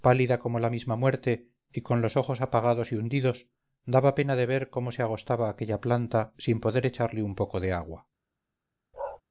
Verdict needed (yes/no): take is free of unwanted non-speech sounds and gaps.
no